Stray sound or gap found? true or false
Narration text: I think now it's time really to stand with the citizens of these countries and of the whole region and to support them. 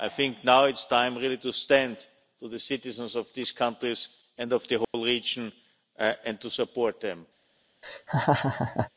true